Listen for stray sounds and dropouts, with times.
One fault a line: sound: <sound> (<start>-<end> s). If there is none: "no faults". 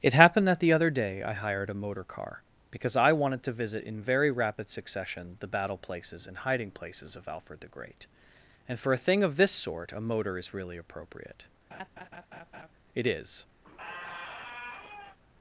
sound: laugh (11.7-12.7 s)
sound: squeak (13.6-15.2 s)